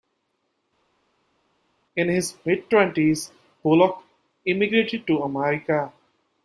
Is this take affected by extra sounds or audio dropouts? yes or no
no